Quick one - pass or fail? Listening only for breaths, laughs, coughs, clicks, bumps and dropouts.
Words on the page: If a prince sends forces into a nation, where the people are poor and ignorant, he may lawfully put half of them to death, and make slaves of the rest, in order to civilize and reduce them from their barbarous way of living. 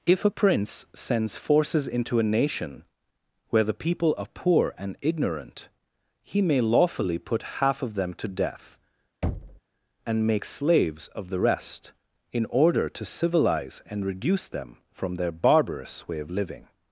fail